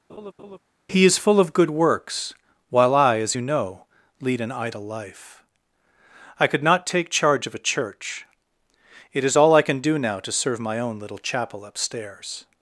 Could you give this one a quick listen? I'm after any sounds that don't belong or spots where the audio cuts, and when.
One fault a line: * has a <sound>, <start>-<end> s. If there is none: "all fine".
* has a laugh, 0.1-0.6 s